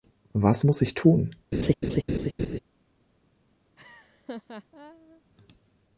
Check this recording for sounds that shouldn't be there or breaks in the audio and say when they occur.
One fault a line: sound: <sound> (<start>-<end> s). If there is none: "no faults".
sound: laugh (1.5-2.6 s)
sound: laugh (3.8-5.2 s)